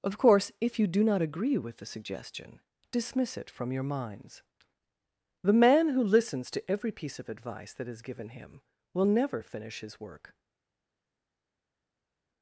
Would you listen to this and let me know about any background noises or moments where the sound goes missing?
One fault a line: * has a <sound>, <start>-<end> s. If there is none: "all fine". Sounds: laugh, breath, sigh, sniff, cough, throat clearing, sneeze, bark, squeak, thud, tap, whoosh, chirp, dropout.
all fine